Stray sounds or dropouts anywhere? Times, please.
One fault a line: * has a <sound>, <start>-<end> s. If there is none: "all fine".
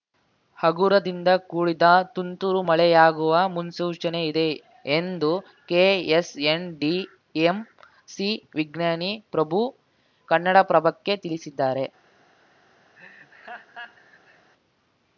* has a laugh, 12.9-14.5 s